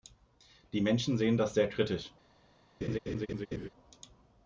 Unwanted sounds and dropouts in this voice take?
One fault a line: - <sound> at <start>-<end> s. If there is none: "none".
- laugh at 2.8-3.7 s